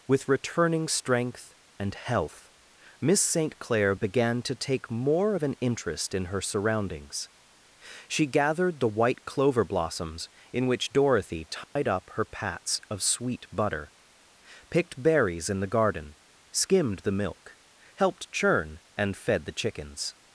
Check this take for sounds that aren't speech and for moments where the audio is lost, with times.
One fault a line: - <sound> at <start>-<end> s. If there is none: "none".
- dropout at 11.6-11.8 s